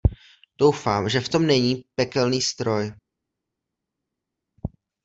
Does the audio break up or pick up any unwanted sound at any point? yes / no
no